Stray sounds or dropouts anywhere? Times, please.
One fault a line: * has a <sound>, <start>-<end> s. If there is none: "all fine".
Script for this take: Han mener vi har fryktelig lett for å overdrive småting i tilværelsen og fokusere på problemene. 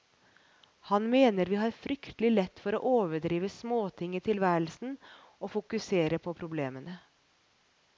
all fine